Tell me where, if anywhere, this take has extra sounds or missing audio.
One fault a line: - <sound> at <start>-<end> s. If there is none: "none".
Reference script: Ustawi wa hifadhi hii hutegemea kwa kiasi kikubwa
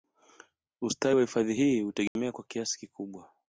- dropout at 2.1-2.2 s